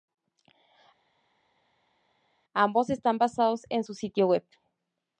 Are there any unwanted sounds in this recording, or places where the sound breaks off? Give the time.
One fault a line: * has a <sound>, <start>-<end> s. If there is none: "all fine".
all fine